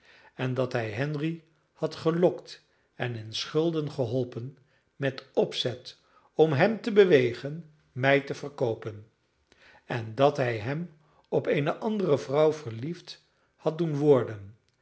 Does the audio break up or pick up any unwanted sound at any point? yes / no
no